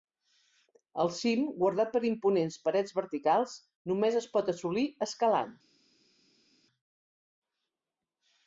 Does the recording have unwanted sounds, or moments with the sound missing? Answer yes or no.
no